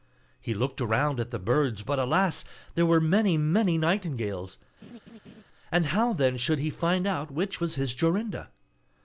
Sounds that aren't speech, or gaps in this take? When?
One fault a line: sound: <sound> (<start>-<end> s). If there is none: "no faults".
sound: laugh (4.8-5.4 s)